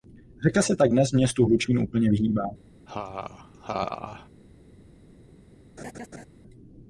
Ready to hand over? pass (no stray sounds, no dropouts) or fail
fail